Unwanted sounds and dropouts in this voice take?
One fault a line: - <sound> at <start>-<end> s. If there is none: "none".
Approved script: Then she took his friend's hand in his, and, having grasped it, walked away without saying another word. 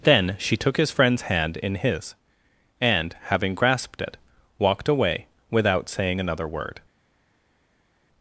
none